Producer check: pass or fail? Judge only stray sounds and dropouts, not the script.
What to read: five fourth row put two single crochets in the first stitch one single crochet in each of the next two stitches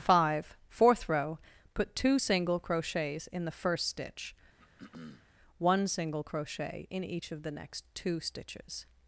fail